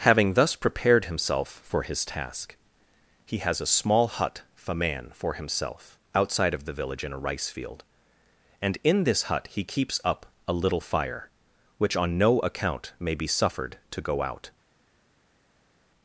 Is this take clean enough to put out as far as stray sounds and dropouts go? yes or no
yes